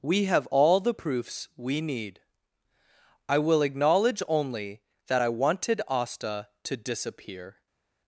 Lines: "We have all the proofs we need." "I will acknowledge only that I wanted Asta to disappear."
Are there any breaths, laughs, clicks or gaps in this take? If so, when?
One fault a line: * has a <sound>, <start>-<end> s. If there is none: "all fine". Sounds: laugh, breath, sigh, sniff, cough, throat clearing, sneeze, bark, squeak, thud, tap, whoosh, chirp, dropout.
all fine